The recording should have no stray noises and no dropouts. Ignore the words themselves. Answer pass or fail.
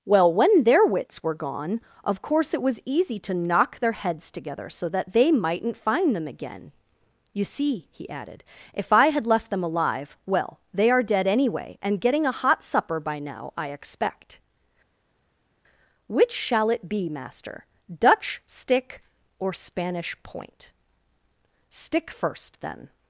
pass